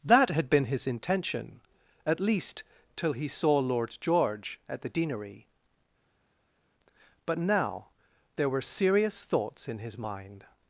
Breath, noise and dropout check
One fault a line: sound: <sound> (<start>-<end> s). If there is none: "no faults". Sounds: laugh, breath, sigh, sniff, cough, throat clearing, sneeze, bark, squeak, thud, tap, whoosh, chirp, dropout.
no faults